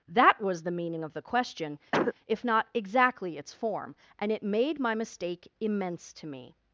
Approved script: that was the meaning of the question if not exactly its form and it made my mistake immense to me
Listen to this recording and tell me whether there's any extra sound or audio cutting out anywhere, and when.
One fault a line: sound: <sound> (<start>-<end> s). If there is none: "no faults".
sound: cough (1.9-2.1 s)